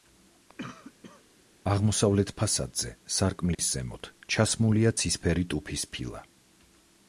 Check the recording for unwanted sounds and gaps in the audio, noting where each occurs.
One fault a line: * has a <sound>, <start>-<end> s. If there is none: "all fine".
* has a cough, 0.6-1.2 s
* has a dropout, 3.5-3.6 s